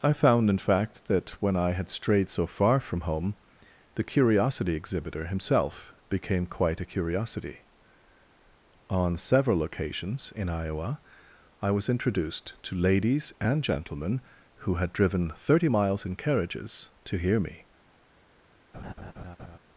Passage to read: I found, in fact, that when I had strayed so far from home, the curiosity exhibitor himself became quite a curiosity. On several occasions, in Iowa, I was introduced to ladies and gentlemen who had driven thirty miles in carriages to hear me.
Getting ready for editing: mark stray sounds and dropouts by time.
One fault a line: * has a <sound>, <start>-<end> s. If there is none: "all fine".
* has a laugh, 18.7-19.6 s